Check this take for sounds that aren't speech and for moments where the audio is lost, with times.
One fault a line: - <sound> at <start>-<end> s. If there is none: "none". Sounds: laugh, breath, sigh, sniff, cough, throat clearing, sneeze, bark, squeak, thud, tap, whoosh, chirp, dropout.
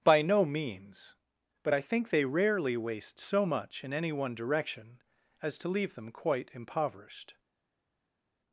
none